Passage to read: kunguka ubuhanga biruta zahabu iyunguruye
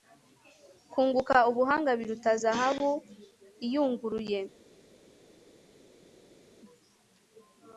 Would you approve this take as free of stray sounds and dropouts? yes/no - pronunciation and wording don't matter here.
yes